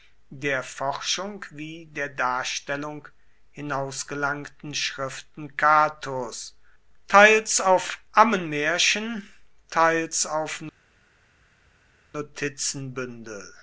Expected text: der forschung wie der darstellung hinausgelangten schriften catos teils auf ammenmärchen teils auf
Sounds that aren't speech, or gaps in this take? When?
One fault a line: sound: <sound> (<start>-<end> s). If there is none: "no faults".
no faults